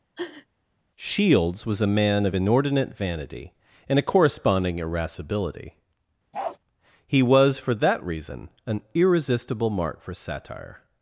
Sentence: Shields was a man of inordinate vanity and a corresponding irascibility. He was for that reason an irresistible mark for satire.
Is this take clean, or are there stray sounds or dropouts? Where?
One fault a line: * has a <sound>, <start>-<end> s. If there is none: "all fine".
* has a sniff, 0.2-0.5 s
* has a bark, 6.3-6.6 s